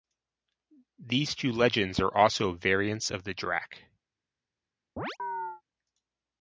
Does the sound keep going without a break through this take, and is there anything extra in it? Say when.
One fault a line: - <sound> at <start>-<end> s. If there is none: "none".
- chirp at 5.0-5.6 s